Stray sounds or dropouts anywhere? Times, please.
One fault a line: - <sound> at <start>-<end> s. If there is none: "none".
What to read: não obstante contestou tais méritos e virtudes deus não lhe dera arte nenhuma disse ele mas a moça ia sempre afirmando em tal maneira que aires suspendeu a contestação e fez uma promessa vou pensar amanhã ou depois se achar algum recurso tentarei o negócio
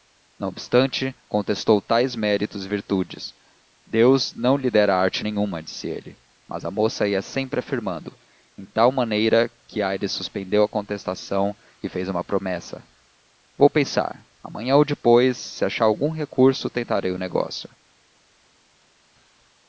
none